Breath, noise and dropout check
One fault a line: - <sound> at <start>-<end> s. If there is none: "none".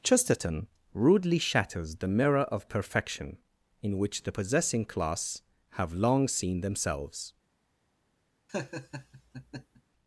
- laugh at 8.5-9.8 s